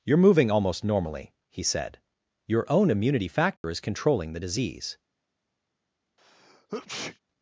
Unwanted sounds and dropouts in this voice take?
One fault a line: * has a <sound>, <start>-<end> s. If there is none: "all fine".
* has a dropout, 3.6-3.6 s
* has a sneeze, 6.2-7.2 s